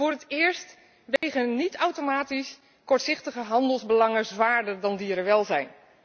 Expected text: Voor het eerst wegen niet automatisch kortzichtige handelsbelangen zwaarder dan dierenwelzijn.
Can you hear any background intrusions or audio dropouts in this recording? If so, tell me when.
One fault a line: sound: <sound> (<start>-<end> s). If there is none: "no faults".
sound: dropout (1.2-1.2 s)